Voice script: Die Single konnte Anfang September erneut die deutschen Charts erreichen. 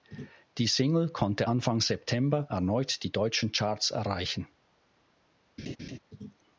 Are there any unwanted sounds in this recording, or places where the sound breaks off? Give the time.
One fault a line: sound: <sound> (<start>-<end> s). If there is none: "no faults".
sound: laugh (5.6-6.0 s)